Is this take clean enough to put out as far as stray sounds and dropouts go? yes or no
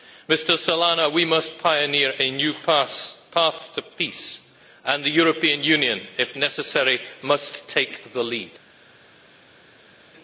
yes